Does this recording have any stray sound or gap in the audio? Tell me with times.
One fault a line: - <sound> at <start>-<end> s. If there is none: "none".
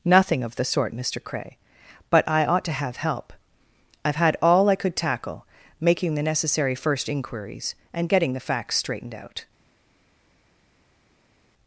none